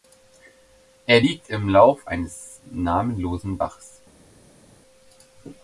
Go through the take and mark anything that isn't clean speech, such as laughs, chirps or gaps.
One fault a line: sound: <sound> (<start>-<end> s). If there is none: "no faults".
no faults